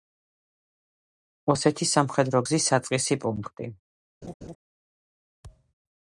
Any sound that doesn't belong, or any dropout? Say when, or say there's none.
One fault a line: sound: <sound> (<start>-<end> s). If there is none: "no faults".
sound: laugh (4.2-4.6 s)
sound: thud (5.4-5.7 s)